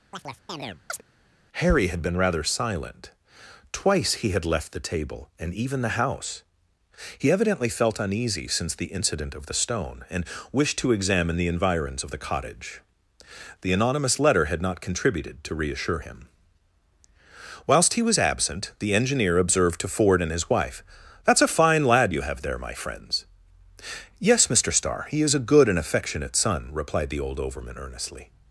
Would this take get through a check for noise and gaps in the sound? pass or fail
fail